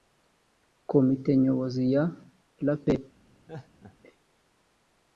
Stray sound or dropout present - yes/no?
yes